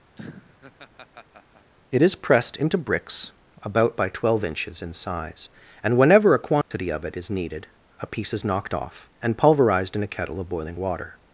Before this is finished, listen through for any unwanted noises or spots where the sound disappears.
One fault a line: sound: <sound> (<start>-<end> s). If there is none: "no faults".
sound: laugh (0.2-1.7 s)
sound: dropout (6.6-6.7 s)